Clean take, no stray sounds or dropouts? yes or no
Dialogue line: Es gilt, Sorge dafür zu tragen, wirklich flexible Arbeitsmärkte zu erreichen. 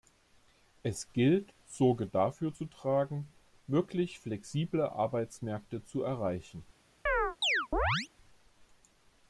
no